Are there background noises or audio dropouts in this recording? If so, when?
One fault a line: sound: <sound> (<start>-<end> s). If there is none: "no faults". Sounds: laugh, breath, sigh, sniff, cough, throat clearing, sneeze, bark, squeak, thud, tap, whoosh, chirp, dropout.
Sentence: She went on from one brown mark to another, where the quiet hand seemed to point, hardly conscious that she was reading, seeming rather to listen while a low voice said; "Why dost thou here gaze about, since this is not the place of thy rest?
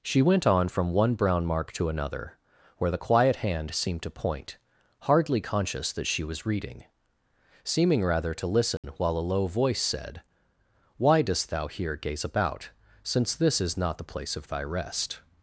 sound: dropout (8.8-8.8 s)